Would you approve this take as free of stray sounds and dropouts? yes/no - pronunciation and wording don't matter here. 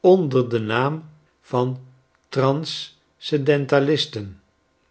yes